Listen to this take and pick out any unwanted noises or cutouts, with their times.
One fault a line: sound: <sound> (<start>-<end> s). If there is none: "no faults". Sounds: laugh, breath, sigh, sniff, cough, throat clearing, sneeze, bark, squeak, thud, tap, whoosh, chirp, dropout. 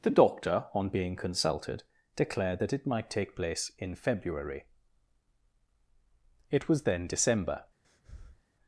sound: breath (7.8-8.4 s)